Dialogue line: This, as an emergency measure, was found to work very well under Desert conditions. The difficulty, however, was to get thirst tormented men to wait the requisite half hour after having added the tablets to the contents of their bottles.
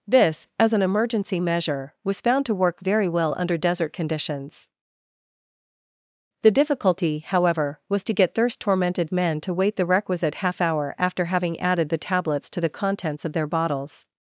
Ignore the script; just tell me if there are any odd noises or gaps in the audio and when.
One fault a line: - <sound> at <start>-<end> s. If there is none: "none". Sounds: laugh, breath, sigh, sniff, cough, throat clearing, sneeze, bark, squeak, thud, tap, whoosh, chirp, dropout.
none